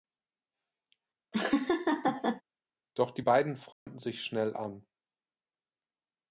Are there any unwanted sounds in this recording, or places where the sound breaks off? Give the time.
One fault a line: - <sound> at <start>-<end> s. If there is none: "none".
- laugh at 1.3-2.4 s
- dropout at 3.7-3.9 s